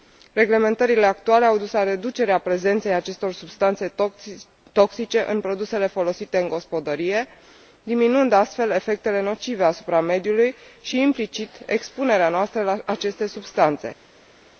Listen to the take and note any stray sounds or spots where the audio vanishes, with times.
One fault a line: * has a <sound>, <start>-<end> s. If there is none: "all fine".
all fine